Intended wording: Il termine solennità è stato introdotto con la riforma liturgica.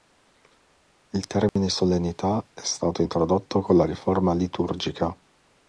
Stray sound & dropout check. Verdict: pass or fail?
fail